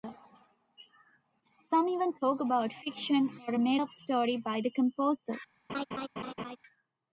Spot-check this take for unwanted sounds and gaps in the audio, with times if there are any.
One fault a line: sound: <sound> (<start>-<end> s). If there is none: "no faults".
sound: laugh (5.7-6.6 s)